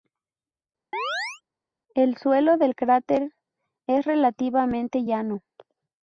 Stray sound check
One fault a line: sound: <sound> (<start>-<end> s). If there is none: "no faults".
sound: chirp (0.9-1.4 s)